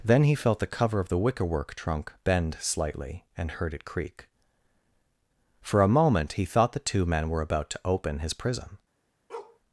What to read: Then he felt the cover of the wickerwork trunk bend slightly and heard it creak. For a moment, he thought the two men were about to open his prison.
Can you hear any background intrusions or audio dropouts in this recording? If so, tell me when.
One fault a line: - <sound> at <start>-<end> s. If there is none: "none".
- bark at 9.3-9.6 s